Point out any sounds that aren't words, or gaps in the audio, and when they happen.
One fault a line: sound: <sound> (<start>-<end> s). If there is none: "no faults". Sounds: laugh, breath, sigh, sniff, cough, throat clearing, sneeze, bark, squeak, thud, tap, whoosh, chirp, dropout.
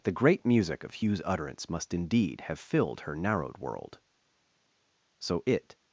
no faults